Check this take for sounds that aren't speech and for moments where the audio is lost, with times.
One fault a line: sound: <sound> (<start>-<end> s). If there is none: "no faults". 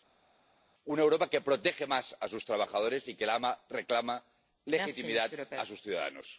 no faults